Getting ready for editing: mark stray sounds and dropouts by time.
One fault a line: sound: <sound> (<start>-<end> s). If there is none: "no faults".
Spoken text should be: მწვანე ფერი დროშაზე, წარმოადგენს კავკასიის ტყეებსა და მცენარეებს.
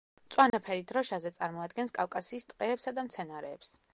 sound: dropout (0.5-0.5 s)